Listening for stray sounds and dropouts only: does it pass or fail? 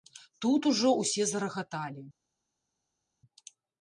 pass